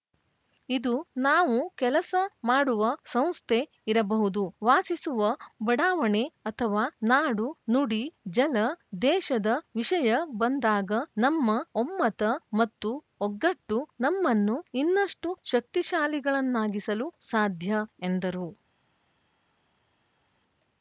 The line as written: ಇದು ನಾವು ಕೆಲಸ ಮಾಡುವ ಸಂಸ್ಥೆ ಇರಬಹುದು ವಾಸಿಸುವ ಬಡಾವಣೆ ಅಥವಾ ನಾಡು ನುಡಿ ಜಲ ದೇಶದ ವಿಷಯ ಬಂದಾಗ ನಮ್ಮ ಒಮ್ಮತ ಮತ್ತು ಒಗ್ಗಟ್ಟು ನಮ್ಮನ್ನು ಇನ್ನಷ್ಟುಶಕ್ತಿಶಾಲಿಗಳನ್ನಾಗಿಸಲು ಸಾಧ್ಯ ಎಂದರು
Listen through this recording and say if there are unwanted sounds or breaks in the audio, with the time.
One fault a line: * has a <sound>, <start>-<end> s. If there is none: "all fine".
all fine